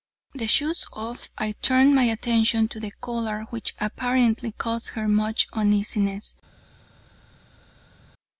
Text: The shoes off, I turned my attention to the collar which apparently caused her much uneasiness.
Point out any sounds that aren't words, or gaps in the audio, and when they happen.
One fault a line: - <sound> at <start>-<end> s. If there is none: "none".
none